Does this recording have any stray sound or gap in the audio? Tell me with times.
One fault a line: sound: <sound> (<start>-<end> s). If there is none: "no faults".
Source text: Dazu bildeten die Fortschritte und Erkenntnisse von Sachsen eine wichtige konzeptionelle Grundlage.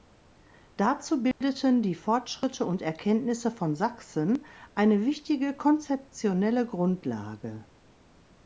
sound: dropout (1.3-1.4 s)